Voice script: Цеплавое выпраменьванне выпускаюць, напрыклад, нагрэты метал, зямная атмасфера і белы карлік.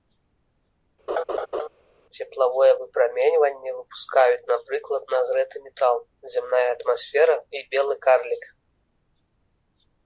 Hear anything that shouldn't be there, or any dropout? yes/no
yes